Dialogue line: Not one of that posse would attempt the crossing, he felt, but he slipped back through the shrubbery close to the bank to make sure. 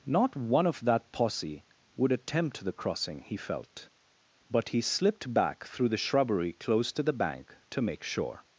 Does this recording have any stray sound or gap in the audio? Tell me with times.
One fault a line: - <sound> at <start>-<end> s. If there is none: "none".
none